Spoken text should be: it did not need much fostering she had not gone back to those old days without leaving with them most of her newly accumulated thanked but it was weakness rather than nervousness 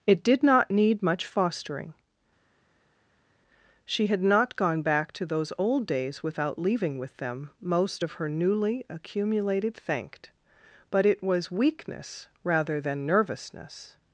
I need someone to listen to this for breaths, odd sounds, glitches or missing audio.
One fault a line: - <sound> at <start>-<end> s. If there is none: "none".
none